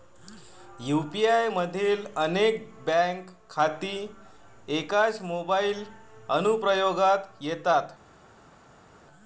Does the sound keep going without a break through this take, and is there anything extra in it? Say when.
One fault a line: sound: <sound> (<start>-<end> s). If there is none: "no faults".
no faults